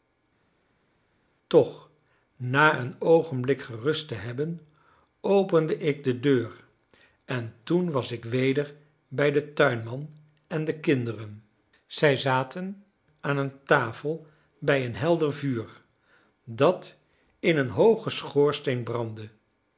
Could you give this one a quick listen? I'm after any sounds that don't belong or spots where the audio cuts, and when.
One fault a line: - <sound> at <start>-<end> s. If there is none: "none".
none